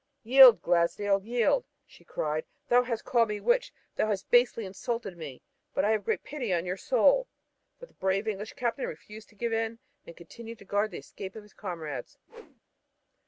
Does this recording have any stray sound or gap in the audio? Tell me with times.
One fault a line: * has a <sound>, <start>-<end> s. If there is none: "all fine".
* has a whoosh, 12.3-12.6 s